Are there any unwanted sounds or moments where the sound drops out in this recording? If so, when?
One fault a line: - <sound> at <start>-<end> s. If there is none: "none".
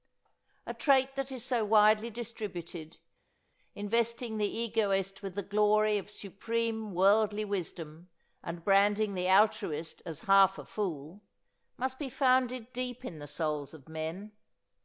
none